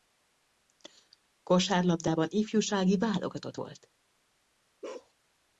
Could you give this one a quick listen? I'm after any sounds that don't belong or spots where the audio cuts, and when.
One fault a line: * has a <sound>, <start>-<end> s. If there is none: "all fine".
* has a bark, 4.8-5.1 s